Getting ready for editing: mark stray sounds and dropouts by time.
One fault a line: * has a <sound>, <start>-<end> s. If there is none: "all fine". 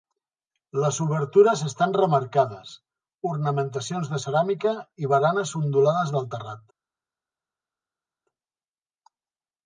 all fine